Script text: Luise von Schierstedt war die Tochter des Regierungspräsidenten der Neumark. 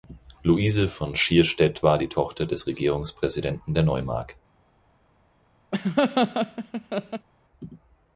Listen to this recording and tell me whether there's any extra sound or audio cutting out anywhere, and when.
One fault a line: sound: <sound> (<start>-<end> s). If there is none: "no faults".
sound: laugh (5.7-7.3 s)